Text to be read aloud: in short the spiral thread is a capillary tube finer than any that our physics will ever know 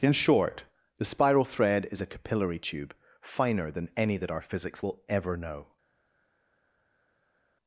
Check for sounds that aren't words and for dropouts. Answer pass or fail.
pass